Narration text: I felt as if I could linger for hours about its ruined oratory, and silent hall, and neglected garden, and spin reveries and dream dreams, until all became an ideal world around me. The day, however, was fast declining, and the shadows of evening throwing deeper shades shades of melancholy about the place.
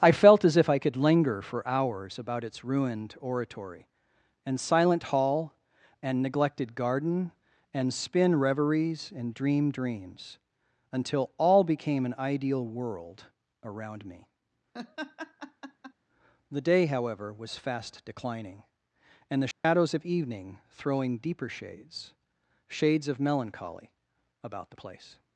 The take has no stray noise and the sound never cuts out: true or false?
false